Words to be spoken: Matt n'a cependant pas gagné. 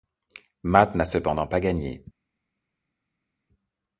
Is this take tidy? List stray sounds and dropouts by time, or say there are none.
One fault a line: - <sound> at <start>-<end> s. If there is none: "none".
none